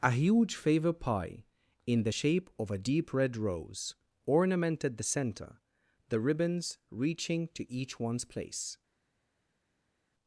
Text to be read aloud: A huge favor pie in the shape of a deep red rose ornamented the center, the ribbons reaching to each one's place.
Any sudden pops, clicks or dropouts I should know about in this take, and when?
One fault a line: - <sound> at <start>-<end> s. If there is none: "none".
none